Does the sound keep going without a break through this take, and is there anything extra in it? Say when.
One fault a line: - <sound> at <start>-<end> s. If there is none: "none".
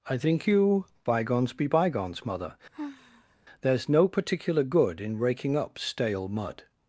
- sigh at 2.7-3.4 s